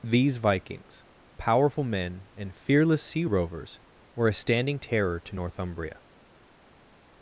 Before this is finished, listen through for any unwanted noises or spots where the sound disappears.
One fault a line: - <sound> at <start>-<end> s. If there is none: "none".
none